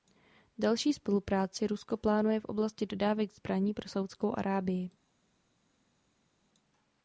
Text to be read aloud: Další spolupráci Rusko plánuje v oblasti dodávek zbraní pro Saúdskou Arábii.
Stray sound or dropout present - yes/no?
no